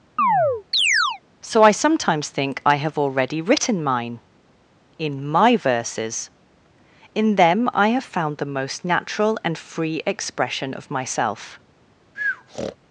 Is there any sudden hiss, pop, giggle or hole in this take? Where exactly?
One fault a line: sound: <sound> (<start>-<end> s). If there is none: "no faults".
sound: chirp (0.2-1.2 s)
sound: breath (12.2-12.8 s)